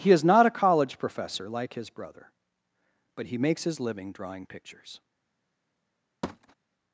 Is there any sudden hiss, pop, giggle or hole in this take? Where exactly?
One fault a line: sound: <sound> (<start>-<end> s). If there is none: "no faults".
sound: thud (6.2-6.5 s)